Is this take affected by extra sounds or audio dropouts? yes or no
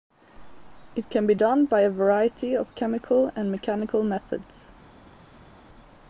no